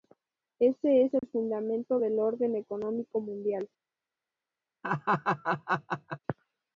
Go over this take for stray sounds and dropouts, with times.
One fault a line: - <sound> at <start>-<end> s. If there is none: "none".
- dropout at 1.2-1.2 s
- laugh at 4.8-6.2 s